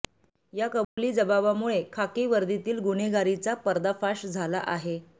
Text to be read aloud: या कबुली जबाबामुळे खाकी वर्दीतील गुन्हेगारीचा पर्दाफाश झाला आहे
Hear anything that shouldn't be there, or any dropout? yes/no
yes